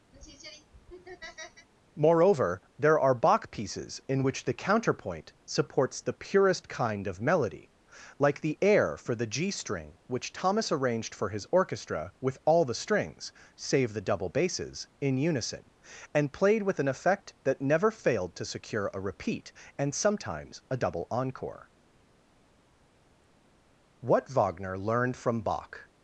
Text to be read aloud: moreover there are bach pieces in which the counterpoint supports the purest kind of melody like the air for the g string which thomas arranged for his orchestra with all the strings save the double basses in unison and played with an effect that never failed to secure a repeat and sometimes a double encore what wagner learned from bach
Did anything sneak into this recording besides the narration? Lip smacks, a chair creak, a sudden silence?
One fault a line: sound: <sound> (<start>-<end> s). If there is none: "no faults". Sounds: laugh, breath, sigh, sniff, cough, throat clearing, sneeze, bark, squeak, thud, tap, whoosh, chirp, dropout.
sound: laugh (0.1-1.7 s)